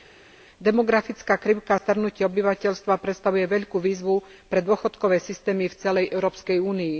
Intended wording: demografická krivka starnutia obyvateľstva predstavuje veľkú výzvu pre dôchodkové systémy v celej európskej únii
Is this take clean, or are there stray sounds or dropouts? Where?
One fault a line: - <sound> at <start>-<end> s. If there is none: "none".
none